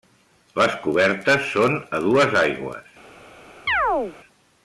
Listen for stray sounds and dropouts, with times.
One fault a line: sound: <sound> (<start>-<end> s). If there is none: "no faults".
sound: chirp (3.7-4.2 s)